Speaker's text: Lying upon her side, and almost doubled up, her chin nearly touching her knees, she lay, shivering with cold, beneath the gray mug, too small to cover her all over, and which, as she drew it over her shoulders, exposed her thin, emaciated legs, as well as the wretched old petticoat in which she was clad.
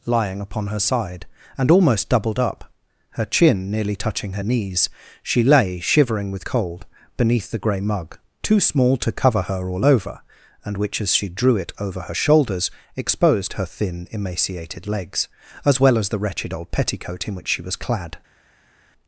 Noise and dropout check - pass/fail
pass